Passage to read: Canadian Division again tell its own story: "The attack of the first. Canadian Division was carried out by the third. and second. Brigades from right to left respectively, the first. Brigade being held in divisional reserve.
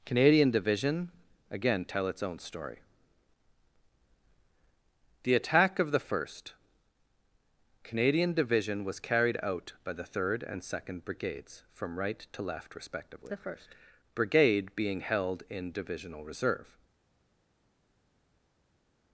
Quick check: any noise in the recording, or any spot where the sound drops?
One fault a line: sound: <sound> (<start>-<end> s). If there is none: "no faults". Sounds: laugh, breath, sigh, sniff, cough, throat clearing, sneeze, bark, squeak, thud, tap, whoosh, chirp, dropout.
no faults